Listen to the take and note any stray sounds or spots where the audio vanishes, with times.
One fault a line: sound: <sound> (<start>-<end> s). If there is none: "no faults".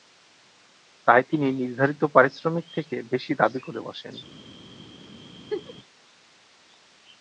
sound: laugh (5.5-5.7 s)